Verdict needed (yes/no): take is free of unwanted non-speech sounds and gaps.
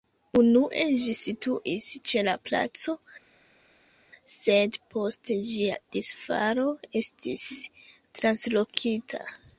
yes